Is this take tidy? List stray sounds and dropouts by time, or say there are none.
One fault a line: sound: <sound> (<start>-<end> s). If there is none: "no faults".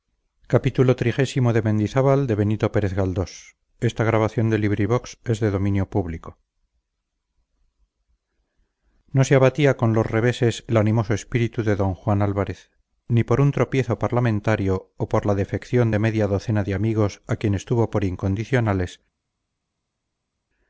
no faults